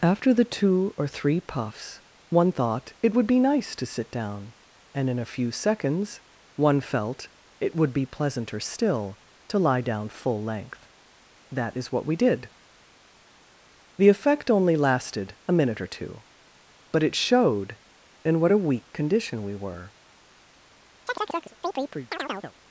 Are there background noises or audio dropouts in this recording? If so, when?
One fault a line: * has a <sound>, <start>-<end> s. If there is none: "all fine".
* has a chirp, 21.1-22.5 s